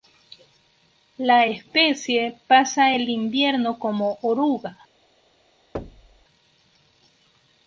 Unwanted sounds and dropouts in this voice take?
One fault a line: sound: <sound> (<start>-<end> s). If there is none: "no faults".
sound: thud (5.7-6.2 s)